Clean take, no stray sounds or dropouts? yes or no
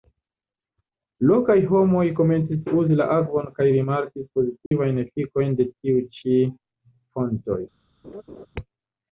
no